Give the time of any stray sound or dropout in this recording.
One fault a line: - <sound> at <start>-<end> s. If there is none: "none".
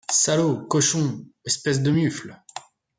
none